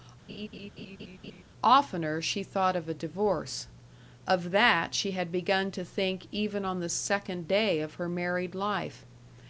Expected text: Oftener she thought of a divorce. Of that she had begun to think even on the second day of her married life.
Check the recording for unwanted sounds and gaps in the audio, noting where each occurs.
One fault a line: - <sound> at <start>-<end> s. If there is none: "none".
- laugh at 0.3-1.4 s